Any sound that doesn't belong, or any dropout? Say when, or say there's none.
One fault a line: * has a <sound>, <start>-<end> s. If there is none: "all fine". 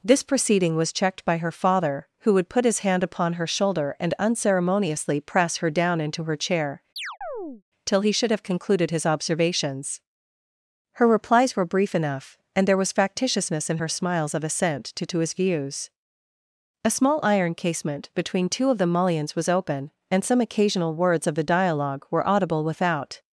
* has a chirp, 7.0-7.6 s